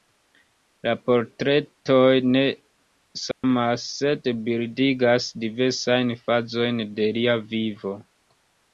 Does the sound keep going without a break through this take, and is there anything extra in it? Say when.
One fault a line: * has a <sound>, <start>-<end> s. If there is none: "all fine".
* has a dropout, 3.3-3.4 s